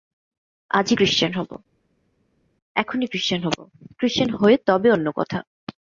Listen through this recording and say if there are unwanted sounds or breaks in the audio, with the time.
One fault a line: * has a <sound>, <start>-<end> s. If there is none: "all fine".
all fine